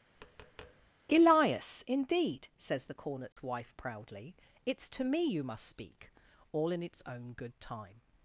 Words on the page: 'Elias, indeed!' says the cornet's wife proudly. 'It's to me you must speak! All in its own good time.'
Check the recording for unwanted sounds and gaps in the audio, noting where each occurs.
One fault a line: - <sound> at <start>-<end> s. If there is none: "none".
- tap at 0.2-0.9 s
- dropout at 3.3-3.4 s